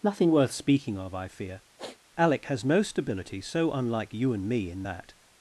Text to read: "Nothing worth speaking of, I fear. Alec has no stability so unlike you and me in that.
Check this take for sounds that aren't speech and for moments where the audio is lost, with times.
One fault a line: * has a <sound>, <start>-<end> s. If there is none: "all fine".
* has a sniff, 1.8-2.0 s